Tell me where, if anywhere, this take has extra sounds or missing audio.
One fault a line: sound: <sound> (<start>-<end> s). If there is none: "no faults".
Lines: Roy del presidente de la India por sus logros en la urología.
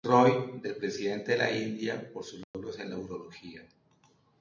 sound: dropout (2.4-2.5 s)